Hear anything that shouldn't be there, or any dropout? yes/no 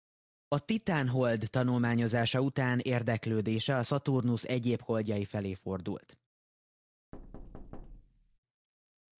yes